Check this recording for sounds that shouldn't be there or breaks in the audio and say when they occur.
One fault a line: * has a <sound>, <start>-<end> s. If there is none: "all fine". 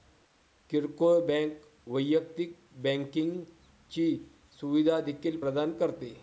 all fine